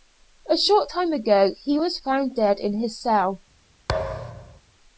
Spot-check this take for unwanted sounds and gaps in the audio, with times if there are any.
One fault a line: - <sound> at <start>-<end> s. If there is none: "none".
- thud at 3.9-4.6 s